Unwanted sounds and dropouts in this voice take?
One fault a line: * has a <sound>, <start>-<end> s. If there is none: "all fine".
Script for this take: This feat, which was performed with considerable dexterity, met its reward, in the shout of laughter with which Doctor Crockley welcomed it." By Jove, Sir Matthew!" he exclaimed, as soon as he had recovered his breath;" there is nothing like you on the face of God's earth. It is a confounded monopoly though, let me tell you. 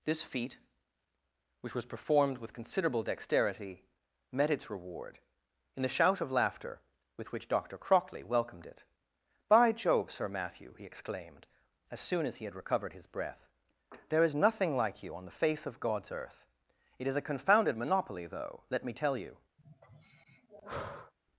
* has a sigh, 19.6-21.1 s